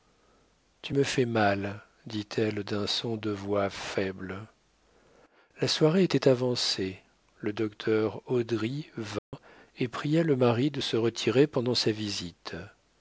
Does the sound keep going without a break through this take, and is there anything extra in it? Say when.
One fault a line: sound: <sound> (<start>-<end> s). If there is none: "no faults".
sound: dropout (9.2-9.3 s)